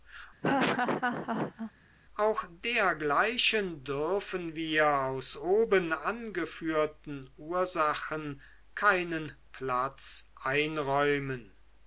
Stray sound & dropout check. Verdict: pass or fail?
fail